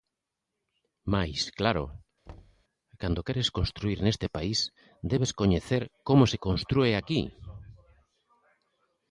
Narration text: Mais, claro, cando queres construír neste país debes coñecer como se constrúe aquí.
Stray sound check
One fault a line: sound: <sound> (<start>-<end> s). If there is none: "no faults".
sound: thud (2.3-2.6 s)